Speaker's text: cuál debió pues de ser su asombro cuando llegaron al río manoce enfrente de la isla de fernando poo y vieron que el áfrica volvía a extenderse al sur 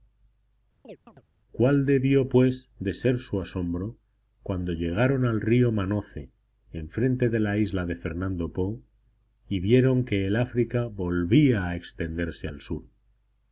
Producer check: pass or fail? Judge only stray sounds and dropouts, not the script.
fail